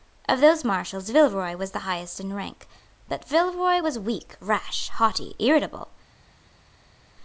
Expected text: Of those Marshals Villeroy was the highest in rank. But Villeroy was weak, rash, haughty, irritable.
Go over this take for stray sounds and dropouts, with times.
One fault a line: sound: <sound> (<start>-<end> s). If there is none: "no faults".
no faults